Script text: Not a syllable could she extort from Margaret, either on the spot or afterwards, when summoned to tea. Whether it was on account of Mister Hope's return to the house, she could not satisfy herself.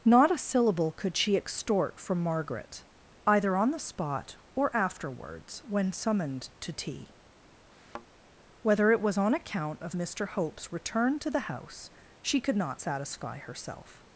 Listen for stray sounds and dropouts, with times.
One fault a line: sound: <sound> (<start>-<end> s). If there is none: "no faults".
sound: thud (7.7-8.1 s)